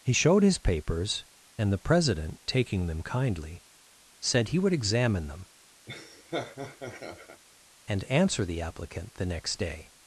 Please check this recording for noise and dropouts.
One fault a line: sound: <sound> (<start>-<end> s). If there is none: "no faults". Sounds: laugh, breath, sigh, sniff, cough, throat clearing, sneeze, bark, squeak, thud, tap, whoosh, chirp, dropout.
sound: laugh (5.9-7.4 s)